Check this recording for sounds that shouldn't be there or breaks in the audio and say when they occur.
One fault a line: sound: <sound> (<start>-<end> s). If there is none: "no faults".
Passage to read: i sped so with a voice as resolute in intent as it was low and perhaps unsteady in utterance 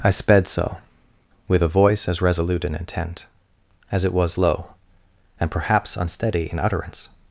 no faults